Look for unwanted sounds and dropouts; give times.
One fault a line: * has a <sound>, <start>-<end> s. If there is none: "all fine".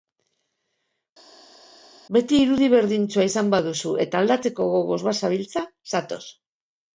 all fine